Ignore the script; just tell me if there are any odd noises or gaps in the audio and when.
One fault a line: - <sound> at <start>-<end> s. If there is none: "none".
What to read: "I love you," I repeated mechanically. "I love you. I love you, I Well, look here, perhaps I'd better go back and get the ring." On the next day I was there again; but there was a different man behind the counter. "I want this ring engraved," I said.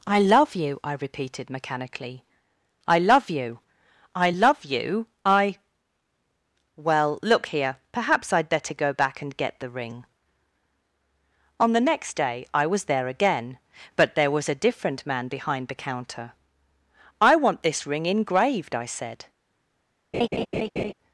- laugh at 20.1-20.9 s